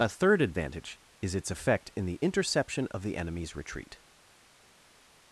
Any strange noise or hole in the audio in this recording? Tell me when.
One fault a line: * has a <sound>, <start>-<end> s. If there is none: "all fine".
all fine